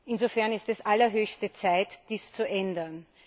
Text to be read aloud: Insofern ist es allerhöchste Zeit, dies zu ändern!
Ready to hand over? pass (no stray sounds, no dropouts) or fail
pass